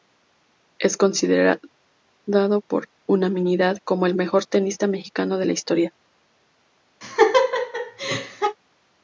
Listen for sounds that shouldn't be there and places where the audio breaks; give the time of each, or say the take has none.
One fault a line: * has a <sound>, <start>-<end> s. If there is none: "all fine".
* has a laugh, 7.0-8.6 s